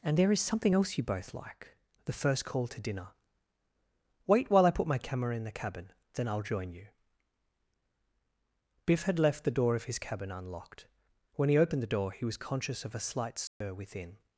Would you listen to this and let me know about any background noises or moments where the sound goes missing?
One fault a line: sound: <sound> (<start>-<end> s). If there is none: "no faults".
sound: dropout (13.5-13.6 s)